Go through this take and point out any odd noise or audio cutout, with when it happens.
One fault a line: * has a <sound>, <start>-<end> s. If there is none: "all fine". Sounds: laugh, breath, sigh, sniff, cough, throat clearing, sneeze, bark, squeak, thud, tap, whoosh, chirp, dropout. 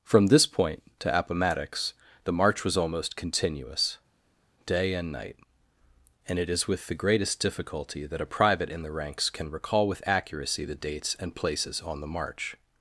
all fine